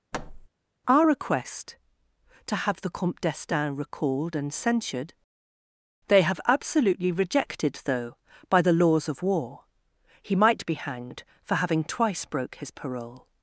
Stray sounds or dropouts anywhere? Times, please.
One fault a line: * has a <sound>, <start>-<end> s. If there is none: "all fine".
* has a thud, 0.1-0.5 s